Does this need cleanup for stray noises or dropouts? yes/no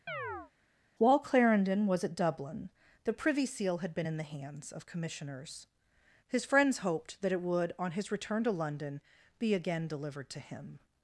yes